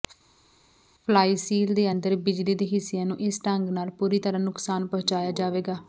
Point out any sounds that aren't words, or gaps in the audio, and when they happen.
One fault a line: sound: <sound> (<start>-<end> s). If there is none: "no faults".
no faults